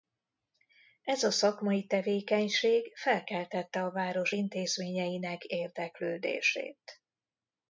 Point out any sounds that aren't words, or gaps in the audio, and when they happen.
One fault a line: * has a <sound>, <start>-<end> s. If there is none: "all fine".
all fine